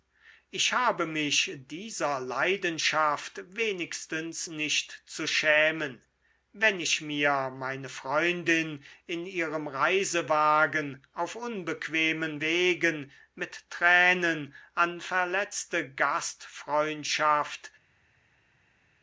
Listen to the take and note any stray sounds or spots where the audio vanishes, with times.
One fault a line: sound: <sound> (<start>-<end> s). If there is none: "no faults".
no faults